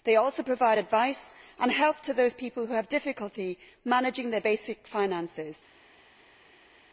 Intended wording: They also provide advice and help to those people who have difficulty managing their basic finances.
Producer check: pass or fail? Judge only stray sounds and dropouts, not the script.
pass